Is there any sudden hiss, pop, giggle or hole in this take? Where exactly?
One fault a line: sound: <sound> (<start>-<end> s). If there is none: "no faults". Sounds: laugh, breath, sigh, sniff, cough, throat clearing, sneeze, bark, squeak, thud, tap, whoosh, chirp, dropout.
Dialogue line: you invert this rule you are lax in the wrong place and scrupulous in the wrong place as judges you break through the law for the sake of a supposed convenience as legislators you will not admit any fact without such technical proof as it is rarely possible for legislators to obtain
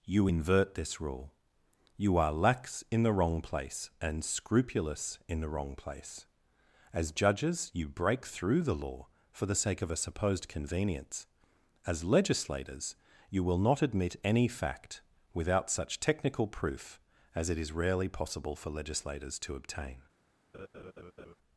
sound: laugh (20.5-21.4 s)